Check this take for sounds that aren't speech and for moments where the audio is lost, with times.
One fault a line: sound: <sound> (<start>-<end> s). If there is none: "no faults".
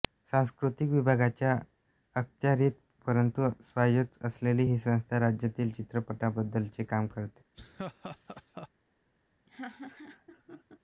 sound: laugh (7.5-8.7 s)
sound: laugh (9.5-10.8 s)